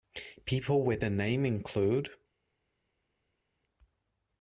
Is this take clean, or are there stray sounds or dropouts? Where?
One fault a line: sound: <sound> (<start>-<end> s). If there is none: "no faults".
no faults